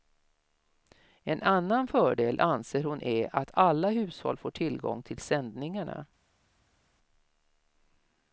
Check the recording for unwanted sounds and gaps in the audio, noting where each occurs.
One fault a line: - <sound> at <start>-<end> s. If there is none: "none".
none